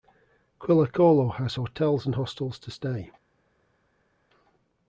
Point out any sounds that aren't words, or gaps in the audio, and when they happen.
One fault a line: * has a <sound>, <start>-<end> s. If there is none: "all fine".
all fine